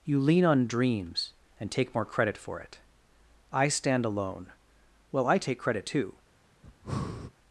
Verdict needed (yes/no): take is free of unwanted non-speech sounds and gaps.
no